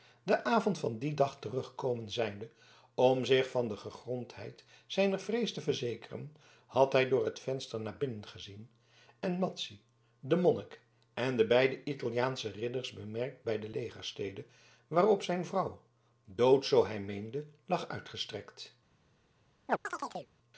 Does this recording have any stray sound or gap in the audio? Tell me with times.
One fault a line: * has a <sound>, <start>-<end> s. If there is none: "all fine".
* has a chirp, 19.7-20.3 s